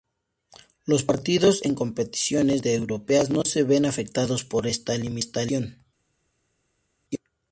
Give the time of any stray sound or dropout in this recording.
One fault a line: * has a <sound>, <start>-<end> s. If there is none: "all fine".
all fine